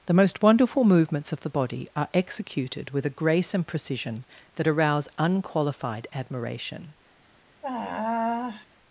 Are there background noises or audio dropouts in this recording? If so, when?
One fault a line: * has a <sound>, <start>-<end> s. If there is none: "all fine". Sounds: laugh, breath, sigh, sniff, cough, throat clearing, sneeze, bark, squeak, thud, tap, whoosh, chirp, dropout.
* has a sigh, 7.6-8.7 s